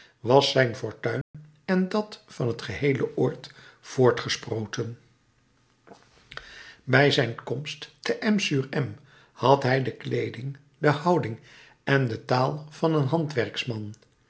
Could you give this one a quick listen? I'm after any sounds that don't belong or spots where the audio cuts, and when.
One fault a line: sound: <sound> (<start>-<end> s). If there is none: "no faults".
sound: dropout (1.2-1.3 s)